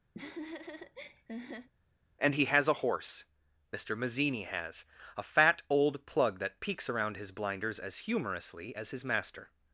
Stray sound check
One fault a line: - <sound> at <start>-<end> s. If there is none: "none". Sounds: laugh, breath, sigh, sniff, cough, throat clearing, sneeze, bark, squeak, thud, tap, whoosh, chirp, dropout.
- laugh at 0.1-1.7 s